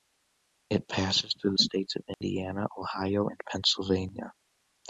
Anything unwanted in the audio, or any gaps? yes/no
yes